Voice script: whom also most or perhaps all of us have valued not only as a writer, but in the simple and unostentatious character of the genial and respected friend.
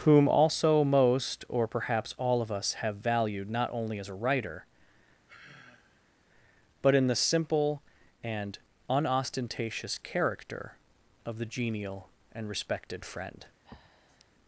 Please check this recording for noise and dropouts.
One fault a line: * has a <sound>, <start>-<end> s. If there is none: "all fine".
* has a sigh, 5.3-6.2 s
* has a breath, 13.6-14.3 s